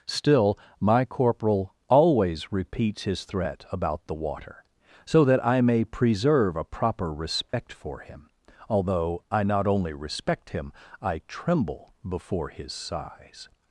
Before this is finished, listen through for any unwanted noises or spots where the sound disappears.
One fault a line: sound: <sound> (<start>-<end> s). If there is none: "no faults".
sound: dropout (7.5-7.5 s)